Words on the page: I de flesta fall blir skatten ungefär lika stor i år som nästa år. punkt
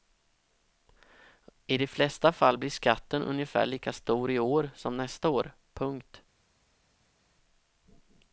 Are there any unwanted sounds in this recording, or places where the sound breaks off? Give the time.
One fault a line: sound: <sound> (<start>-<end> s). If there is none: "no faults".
no faults